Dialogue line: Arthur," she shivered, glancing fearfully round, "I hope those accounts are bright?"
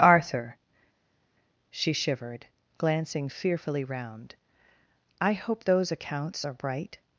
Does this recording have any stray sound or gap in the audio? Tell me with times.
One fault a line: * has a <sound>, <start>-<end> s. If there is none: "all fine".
all fine